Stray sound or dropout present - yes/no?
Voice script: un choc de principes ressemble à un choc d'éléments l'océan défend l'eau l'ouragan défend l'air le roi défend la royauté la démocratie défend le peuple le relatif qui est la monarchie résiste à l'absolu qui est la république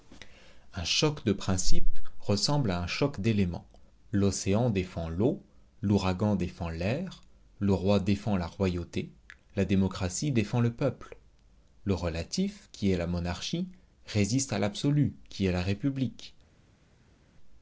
no